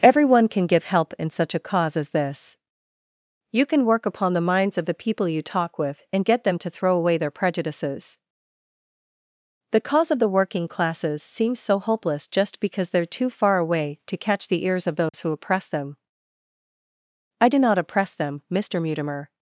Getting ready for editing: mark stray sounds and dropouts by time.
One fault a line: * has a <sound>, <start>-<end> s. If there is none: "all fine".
* has a dropout, 15.1-15.1 s